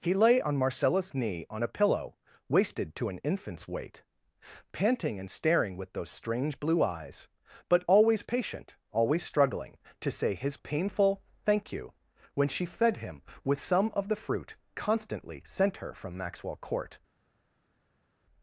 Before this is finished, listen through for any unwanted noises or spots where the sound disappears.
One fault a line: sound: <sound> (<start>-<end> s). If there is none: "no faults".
no faults